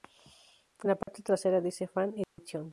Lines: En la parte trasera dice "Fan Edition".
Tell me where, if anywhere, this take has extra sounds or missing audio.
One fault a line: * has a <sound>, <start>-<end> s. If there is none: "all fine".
* has a dropout, 1.0-1.1 s
* has a dropout, 2.2-2.4 s